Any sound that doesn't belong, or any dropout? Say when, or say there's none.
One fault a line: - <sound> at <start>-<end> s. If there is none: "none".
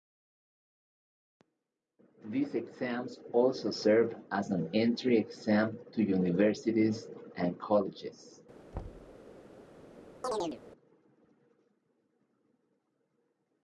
- thud at 8.7-9.2 s
- chirp at 10.2-10.6 s